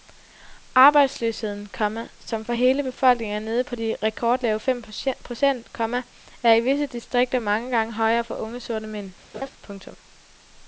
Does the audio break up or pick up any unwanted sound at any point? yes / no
yes